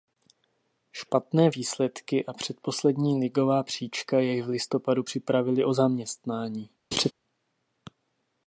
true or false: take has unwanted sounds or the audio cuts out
true